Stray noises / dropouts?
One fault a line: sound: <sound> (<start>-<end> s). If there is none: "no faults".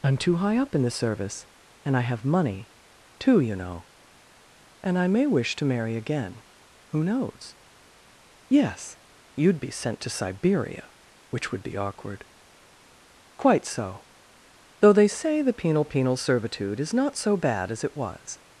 no faults